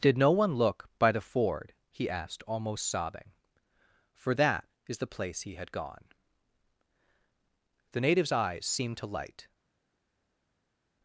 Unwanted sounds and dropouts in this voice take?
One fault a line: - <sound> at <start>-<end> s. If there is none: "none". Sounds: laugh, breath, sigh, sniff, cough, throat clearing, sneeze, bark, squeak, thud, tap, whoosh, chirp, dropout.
none